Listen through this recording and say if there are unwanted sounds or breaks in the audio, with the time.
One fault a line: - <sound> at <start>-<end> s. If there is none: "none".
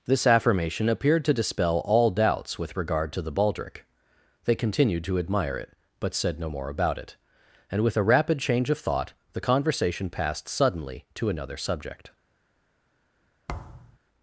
- thud at 13.5-14.0 s